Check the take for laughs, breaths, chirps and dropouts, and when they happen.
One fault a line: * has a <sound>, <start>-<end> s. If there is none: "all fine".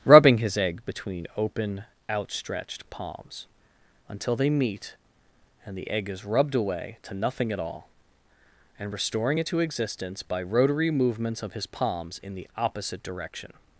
all fine